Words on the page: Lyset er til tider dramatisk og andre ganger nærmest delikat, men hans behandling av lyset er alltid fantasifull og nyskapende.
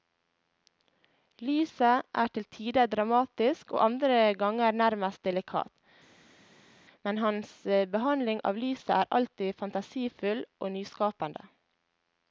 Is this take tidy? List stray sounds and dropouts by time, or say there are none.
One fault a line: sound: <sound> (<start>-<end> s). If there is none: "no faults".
no faults